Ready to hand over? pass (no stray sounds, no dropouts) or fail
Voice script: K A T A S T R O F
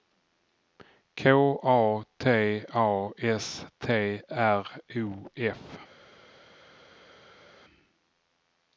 pass